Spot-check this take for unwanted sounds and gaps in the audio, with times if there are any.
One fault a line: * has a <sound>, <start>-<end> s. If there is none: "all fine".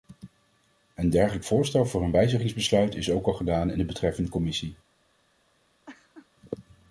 * has a laugh, 5.9-6.3 s